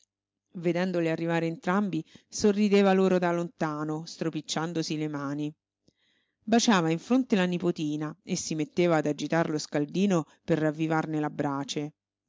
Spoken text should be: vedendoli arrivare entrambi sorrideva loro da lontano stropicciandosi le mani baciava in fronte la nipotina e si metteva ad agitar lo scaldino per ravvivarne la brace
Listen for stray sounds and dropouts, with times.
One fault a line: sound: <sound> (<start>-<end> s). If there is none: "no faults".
no faults